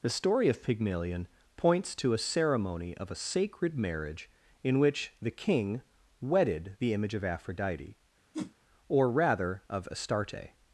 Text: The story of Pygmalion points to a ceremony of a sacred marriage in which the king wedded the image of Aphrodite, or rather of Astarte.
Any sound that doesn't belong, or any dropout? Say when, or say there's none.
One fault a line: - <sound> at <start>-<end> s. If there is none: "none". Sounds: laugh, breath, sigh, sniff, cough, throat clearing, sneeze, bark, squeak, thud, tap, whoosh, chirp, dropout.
- whoosh at 8.3-8.5 s